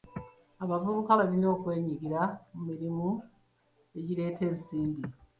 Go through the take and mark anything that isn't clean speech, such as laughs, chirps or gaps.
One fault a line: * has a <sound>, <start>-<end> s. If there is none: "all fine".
all fine